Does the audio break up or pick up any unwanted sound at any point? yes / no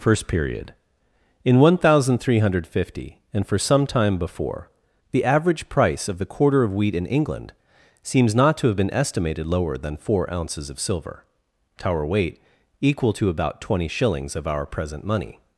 no